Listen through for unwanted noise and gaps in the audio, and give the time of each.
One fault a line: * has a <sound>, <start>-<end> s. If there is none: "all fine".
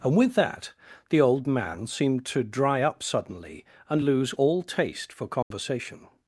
* has a dropout, 5.4-5.5 s